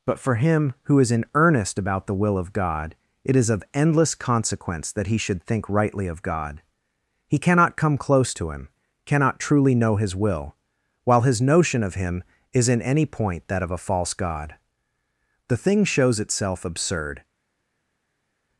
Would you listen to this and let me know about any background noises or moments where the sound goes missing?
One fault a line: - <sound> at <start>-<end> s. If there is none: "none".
none